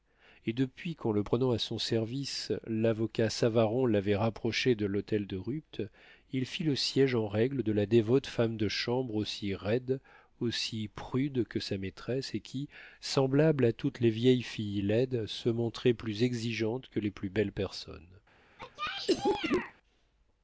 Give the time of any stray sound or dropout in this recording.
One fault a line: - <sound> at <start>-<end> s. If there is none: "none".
- cough at 18.6-19.7 s